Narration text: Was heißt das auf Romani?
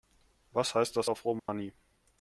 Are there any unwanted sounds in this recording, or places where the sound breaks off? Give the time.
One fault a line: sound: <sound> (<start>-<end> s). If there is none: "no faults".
sound: dropout (1.4-1.5 s)